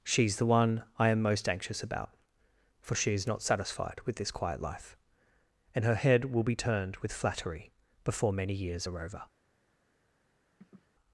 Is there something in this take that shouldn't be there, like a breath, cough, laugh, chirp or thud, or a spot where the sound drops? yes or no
yes